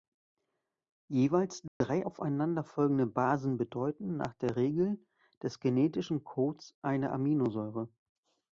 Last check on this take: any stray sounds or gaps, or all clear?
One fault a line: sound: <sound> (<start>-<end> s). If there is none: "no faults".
sound: dropout (1.7-1.8 s)